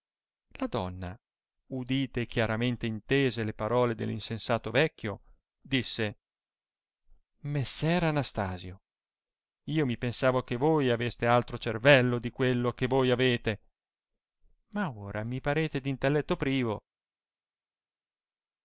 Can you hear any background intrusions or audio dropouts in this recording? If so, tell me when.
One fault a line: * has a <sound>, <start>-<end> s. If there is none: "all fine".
all fine